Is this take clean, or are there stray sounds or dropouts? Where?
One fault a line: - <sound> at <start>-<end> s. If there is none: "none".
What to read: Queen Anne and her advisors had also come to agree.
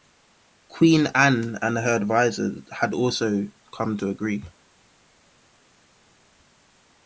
none